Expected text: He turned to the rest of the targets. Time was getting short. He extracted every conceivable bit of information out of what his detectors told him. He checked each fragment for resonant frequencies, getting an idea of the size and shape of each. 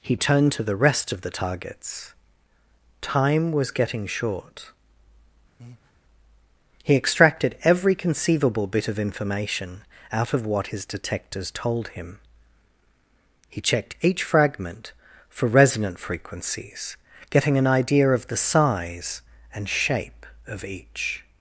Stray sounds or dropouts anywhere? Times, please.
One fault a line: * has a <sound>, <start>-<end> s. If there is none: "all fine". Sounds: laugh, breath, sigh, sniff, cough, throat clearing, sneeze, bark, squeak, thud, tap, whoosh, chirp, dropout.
* has a breath, 5.6-5.9 s